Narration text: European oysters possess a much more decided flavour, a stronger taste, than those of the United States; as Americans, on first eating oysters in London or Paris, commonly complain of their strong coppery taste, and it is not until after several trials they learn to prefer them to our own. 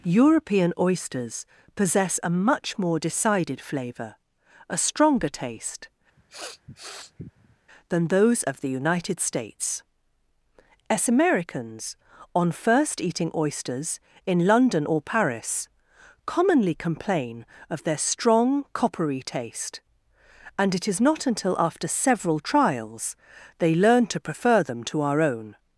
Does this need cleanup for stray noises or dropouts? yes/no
yes